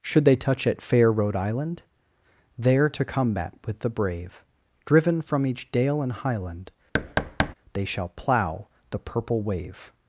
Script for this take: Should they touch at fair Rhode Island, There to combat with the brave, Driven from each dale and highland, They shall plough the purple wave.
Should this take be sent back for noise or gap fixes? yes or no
yes